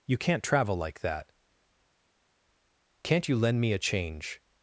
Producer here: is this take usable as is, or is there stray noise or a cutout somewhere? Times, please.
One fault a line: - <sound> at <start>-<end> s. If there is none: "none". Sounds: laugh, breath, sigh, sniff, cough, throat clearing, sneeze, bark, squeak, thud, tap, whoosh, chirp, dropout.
none